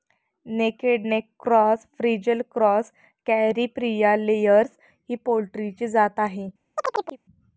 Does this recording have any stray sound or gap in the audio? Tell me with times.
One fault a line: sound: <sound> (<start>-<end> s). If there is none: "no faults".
sound: chirp (6.8-7.2 s)